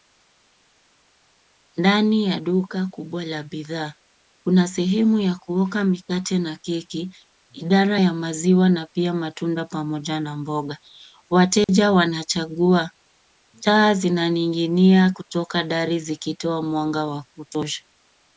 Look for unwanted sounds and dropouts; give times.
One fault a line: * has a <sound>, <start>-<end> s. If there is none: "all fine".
* has a dropout, 11.6-11.7 s